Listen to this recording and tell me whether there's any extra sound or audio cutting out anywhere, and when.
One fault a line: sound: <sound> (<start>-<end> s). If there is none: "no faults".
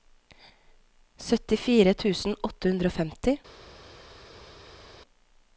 no faults